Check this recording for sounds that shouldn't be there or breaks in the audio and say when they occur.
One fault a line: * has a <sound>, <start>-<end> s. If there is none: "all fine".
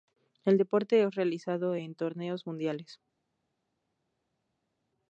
all fine